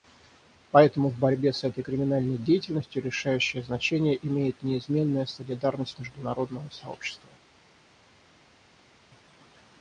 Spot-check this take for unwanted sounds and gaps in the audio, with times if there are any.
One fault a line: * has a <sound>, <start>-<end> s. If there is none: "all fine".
all fine